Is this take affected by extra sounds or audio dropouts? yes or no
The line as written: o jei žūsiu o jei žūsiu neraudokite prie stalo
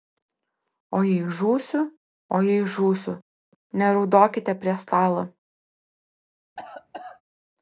yes